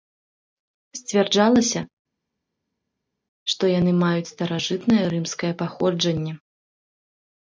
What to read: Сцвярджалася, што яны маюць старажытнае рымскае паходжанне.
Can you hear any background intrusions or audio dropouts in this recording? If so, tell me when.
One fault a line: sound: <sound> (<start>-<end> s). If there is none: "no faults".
no faults